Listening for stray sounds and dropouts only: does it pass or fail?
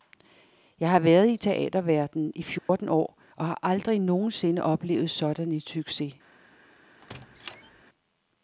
fail